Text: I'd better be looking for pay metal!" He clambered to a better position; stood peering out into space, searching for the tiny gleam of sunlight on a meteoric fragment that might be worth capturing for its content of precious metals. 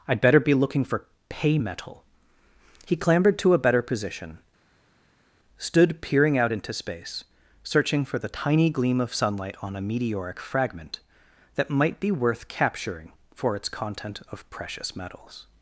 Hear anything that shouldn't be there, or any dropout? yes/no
no